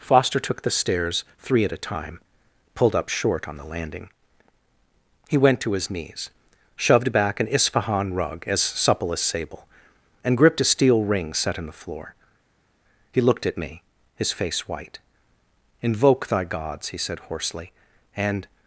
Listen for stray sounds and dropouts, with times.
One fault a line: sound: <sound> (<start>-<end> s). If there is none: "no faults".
no faults